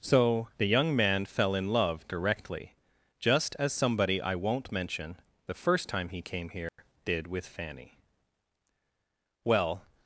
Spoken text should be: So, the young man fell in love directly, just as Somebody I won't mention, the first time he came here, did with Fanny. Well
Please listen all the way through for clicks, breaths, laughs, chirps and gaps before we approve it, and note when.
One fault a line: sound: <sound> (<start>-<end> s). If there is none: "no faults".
sound: dropout (6.7-6.8 s)